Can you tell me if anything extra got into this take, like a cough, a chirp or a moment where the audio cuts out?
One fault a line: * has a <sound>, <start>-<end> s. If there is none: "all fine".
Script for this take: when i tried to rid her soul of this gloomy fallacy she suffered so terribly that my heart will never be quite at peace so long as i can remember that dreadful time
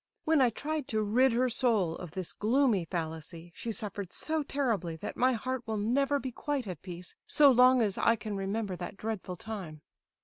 all fine